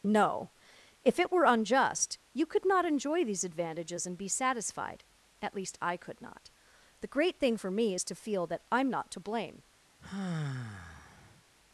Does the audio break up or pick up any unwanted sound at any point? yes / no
yes